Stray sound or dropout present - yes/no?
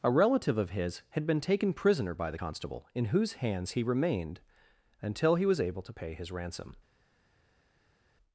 no